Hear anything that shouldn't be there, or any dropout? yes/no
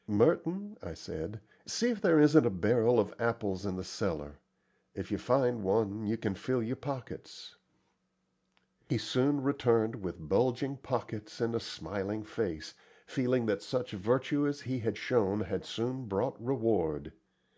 no